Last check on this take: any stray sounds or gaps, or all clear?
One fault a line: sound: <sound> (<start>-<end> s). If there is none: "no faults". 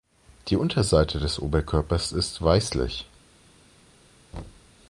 sound: thud (4.3-4.7 s)